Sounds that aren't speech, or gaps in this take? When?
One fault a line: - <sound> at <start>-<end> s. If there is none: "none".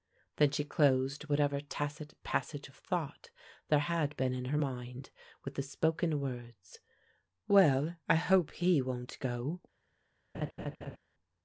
- laugh at 10.3-11.0 s